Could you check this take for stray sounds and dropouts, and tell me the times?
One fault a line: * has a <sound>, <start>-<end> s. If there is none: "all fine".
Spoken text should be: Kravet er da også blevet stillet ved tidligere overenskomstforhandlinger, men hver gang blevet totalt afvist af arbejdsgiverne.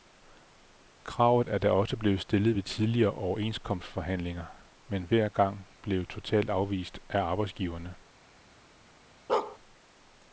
* has a bark, 9.3-9.6 s